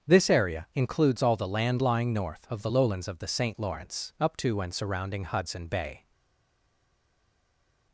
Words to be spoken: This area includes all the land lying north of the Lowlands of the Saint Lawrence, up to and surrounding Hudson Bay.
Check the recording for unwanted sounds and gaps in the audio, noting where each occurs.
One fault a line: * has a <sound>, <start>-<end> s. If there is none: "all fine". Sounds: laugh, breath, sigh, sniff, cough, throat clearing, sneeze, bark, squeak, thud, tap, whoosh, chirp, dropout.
all fine